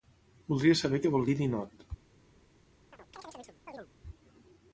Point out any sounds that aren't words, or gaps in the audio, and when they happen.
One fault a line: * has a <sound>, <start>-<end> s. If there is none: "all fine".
* has a chirp, 2.9-3.9 s